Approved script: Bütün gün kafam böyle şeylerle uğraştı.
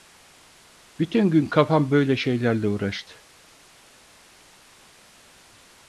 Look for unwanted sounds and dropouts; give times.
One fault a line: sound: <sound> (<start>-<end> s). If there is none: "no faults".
no faults